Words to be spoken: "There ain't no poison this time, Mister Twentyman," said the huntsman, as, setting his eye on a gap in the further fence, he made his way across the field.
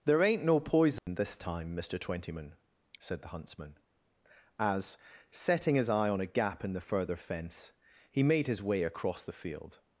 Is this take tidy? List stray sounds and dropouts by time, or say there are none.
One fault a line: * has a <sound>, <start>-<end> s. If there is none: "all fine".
* has a dropout, 1.0-1.1 s